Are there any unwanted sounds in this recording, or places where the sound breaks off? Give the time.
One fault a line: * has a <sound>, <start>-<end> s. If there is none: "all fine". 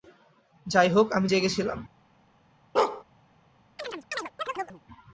* has a bark, 2.8-3.0 s
* has a chirp, 3.8-4.8 s